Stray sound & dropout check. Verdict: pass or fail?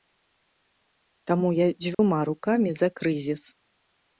fail